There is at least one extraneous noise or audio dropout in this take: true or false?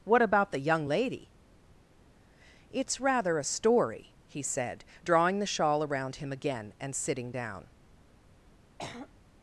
true